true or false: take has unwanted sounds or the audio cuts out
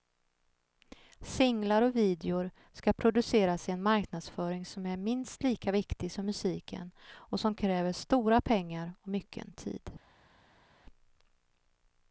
false